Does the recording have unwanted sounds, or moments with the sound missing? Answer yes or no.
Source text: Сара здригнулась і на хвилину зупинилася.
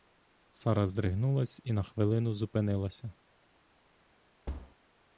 yes